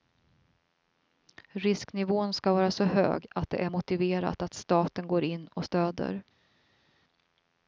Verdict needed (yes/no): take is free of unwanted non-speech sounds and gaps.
yes